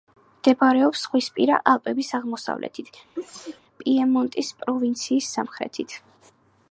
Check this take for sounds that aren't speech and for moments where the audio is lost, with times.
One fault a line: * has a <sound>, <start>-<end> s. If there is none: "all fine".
* has a sneeze, 3.2-3.6 s